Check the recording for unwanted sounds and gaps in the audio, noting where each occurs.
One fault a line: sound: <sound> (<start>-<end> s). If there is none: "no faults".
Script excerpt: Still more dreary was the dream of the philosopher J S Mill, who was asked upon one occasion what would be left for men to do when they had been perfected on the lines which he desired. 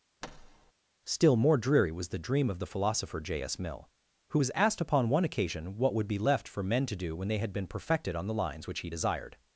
sound: thud (0.2-0.7 s)